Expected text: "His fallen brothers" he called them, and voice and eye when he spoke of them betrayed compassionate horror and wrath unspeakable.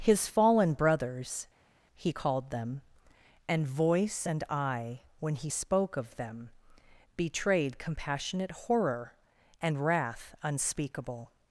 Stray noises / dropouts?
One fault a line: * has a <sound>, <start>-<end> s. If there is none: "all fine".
all fine